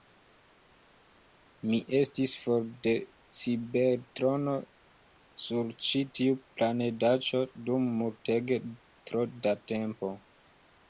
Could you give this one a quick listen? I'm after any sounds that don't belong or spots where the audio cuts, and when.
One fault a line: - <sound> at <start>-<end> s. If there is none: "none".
none